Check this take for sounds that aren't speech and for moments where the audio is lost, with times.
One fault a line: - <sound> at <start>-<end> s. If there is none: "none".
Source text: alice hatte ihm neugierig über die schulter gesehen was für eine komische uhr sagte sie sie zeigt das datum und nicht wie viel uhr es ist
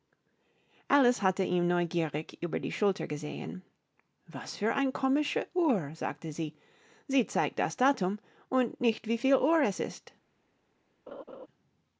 - laugh at 11.1-11.5 s